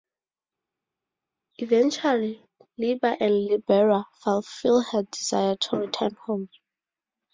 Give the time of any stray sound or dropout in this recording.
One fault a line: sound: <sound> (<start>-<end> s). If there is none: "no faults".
no faults